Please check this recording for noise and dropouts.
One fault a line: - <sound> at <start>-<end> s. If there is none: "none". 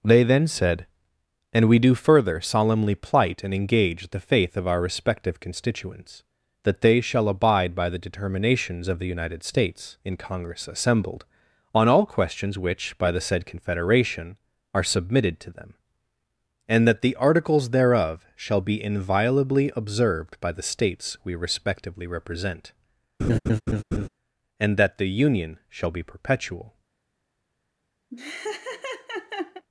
- laugh at 23.2-24.1 s
- laugh at 28.1-29.6 s